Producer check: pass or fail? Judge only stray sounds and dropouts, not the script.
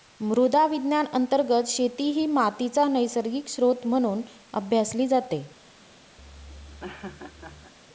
fail